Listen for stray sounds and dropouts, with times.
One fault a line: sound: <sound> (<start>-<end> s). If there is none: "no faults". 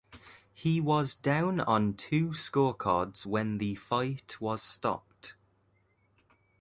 no faults